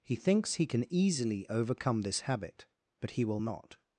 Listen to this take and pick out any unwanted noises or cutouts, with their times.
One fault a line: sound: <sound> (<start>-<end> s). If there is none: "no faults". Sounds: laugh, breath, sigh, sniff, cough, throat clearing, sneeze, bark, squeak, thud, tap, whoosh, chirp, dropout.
no faults